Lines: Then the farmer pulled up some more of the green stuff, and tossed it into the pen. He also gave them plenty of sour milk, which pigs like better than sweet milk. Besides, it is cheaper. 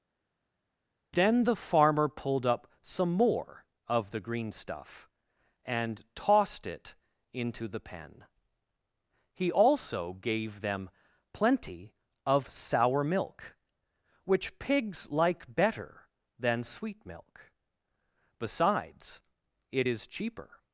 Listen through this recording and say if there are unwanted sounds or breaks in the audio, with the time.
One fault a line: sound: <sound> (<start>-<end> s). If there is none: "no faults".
no faults